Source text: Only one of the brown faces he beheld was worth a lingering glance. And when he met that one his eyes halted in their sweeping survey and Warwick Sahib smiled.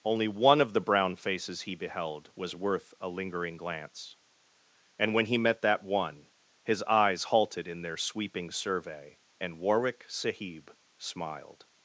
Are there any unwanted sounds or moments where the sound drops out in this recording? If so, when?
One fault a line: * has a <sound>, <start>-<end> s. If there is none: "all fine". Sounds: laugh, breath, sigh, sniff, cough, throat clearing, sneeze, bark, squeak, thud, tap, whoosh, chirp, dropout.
all fine